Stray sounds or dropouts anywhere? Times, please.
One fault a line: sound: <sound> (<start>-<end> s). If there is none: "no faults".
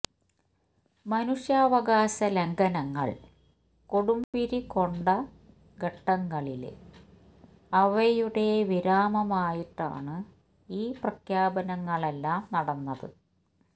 sound: dropout (4.2-4.3 s)